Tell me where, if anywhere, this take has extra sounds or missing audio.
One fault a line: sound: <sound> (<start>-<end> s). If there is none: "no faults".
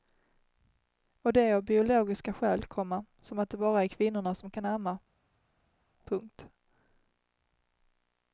no faults